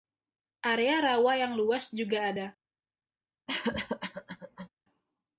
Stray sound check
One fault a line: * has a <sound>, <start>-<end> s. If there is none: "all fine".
* has a cough, 3.5-4.7 s